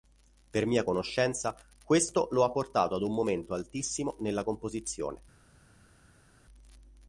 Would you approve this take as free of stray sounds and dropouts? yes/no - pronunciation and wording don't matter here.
yes